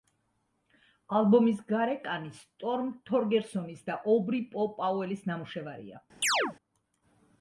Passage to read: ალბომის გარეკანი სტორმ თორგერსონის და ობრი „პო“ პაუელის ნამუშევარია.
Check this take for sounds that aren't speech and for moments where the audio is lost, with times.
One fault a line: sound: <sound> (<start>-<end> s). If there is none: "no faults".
sound: chirp (6.2-6.6 s)